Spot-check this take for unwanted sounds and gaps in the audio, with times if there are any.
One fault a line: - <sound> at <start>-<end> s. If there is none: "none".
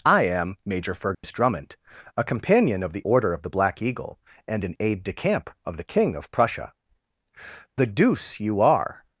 - dropout at 1.1-1.2 s